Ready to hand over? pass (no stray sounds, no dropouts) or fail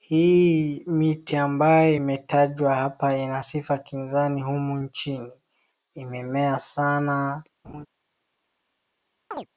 fail